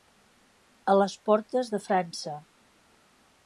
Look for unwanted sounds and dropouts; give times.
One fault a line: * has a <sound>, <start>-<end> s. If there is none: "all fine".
all fine